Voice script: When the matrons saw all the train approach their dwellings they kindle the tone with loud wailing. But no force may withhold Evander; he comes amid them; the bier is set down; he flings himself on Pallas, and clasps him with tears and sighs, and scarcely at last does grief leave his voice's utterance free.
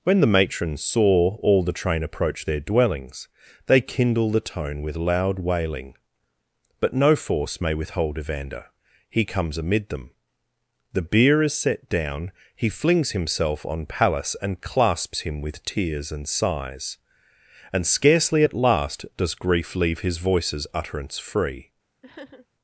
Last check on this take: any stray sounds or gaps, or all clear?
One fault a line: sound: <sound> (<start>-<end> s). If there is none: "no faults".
sound: sniff (22.0-22.5 s)